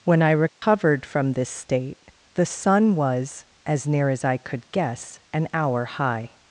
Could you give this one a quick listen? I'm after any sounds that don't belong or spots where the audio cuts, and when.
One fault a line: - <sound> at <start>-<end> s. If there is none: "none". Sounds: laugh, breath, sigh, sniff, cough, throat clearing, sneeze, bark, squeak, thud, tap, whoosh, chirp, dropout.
- dropout at 0.5-0.6 s